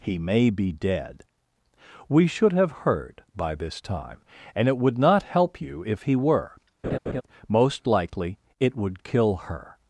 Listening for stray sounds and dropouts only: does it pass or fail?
fail